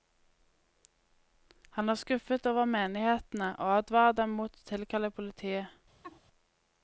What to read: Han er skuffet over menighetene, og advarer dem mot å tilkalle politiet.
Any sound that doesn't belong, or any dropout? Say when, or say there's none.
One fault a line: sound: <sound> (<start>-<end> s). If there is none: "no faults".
sound: laugh (6.0-6.2 s)